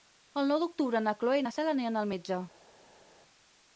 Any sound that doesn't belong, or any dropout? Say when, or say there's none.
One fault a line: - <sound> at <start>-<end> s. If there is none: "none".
none